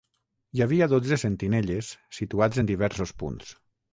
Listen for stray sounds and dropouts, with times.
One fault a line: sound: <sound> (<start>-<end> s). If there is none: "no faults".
no faults